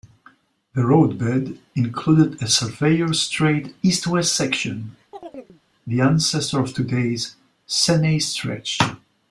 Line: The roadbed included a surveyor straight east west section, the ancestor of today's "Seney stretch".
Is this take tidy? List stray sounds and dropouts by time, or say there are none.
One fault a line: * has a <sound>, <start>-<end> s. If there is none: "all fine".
* has a chirp, 5.1-5.6 s